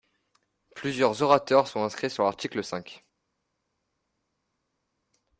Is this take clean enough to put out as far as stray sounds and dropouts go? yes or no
yes